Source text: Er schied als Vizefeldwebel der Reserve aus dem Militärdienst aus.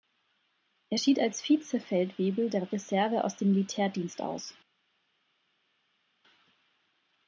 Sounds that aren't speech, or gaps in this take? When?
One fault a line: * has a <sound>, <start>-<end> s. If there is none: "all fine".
all fine